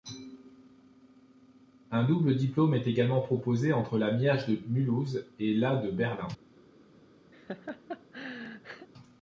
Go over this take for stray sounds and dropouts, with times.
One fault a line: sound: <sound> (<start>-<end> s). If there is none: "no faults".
sound: laugh (7.3-8.9 s)